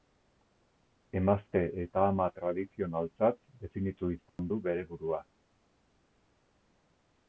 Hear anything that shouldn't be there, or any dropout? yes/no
yes